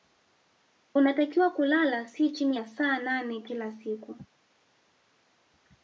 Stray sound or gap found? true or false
false